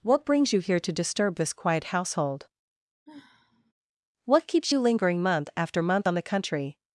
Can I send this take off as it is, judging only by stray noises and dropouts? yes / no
no